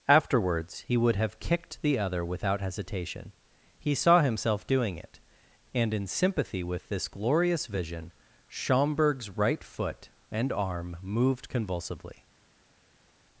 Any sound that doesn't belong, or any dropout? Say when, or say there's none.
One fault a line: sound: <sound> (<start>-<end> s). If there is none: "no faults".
no faults